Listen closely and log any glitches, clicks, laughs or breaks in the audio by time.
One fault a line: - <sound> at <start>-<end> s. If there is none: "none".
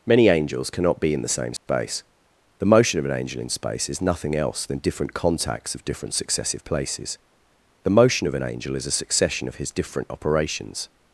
- dropout at 1.6-1.7 s